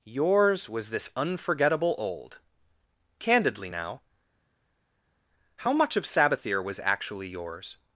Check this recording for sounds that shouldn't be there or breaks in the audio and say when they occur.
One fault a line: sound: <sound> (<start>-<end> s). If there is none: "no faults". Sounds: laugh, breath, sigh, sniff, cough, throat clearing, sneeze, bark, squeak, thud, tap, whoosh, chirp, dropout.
no faults